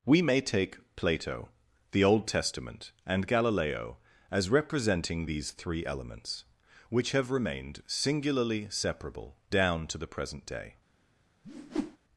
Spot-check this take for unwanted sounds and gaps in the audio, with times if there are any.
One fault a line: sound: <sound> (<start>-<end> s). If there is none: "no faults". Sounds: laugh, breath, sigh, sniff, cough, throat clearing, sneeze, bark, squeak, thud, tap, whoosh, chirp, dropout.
sound: whoosh (11.4-12.0 s)